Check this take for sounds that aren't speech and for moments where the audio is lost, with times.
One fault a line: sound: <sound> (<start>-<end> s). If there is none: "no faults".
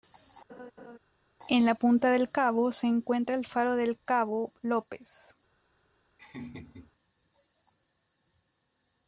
sound: laugh (0.5-1.0 s)
sound: laugh (6.2-6.9 s)